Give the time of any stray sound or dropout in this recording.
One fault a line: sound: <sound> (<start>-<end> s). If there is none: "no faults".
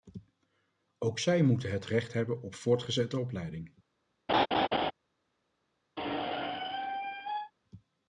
sound: laugh (4.3-4.9 s)
sound: squeak (6.0-7.5 s)